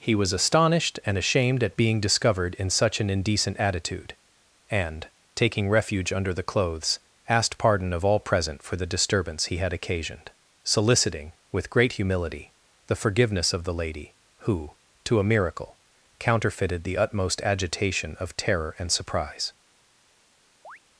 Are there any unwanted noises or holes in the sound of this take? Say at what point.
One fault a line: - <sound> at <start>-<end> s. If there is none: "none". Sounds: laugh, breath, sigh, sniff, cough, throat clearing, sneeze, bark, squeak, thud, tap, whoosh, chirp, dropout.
- chirp at 20.6-20.8 s